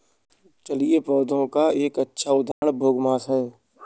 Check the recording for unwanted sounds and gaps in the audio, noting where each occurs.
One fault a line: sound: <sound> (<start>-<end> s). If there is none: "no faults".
sound: dropout (2.5-2.6 s)